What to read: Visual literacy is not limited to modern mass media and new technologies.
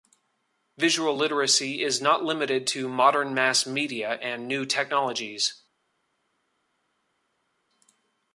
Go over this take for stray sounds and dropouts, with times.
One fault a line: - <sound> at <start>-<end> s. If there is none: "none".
none